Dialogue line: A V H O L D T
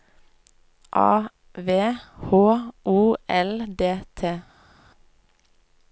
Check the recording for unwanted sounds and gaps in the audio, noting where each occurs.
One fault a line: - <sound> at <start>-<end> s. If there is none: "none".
none